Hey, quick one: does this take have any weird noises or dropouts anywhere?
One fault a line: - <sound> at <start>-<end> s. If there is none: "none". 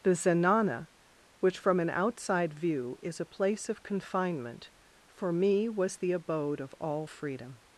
none